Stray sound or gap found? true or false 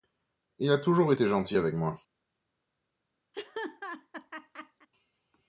true